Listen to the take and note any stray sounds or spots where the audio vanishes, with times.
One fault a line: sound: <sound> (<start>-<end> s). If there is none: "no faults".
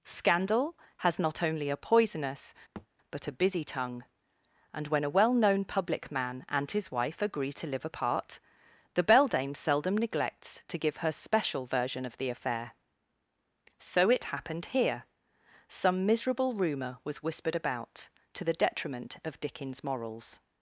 sound: thud (2.8-2.9 s)